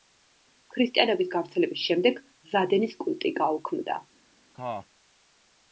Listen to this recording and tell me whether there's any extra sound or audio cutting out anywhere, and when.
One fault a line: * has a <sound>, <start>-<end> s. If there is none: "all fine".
* has a cough, 4.5-4.9 s